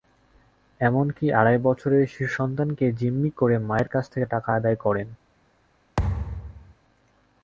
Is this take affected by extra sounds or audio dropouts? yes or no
yes